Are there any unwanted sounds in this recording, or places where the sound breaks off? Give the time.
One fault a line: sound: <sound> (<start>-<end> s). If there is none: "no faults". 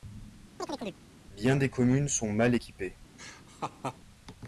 sound: chirp (0.6-1.0 s)
sound: laugh (3.2-4.0 s)